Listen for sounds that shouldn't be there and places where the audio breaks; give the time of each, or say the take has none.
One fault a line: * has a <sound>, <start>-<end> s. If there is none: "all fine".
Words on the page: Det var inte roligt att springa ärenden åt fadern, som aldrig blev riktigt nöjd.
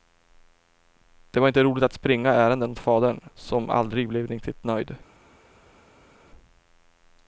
all fine